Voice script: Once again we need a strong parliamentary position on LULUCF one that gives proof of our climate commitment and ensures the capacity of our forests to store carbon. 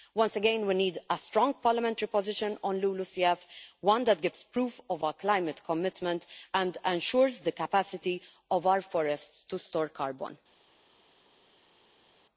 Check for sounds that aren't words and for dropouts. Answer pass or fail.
pass